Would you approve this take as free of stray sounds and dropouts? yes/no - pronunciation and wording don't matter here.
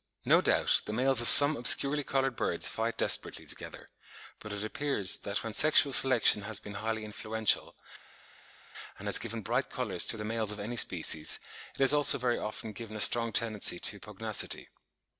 yes